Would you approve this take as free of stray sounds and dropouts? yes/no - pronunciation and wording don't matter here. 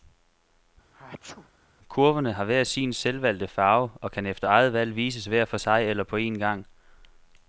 no